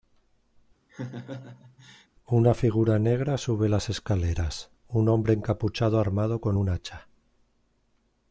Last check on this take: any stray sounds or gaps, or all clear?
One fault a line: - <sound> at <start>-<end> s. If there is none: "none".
- laugh at 0.9-2.1 s